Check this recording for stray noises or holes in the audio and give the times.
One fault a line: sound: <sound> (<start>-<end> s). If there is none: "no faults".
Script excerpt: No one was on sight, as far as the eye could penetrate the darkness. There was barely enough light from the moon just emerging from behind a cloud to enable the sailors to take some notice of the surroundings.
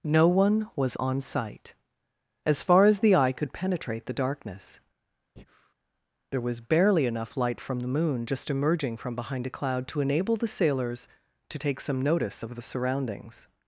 sound: breath (5.4-5.7 s)